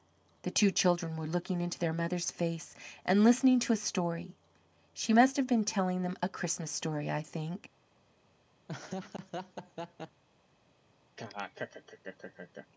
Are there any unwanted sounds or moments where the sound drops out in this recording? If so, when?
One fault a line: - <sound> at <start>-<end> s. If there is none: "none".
- laugh at 8.7-10.2 s
- laugh at 11.2-12.7 s